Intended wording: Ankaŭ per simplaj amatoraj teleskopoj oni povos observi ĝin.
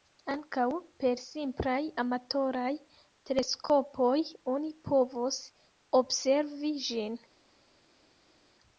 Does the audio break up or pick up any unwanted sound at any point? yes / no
no